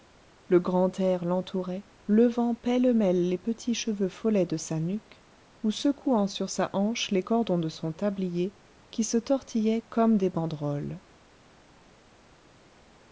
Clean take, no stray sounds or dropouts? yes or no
yes